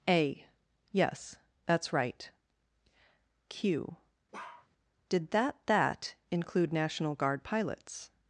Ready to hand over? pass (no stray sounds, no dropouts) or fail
fail